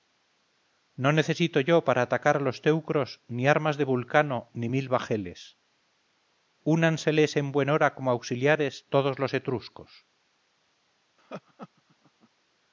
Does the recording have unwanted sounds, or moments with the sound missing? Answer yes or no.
yes